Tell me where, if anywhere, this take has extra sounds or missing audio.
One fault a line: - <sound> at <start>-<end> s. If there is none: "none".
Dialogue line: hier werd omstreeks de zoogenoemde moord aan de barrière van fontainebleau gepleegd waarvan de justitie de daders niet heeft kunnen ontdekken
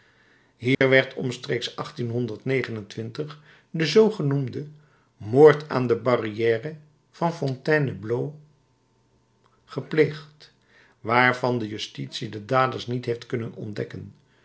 - dropout at 0.7-0.8 s